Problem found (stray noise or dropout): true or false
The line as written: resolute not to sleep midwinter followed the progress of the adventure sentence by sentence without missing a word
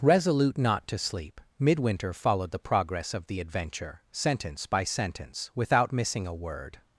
false